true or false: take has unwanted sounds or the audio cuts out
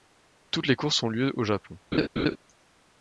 true